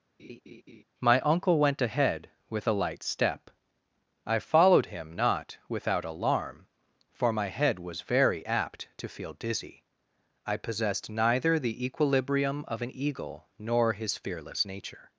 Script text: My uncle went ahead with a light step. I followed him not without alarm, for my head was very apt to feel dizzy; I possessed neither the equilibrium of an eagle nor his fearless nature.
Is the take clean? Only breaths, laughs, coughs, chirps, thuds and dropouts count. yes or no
no